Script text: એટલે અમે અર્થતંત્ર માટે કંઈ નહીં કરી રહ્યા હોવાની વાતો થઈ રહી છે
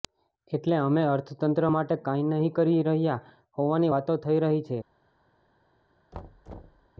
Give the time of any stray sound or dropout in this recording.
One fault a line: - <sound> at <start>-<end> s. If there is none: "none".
- thud at 6.1-6.9 s